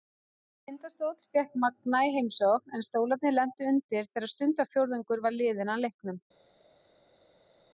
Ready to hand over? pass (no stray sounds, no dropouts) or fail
pass